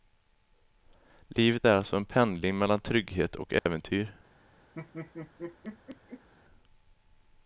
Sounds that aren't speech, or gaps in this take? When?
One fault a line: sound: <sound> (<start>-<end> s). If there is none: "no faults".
sound: dropout (3.6-3.7 s)
sound: laugh (4.7-6.3 s)